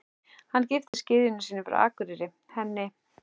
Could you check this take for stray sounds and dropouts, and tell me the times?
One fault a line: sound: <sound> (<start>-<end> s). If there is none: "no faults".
sound: dropout (0.9-0.9 s)